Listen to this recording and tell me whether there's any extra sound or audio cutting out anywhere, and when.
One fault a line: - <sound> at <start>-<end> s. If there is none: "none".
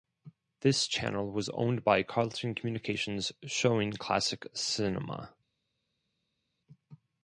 none